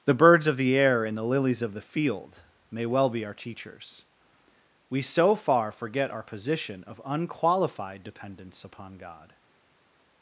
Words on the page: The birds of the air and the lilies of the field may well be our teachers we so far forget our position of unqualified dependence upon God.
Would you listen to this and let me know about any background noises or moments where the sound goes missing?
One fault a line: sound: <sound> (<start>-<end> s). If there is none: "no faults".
no faults